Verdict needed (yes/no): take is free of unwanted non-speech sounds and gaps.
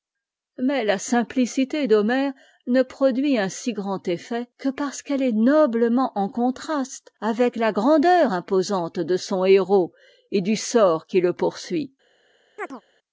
no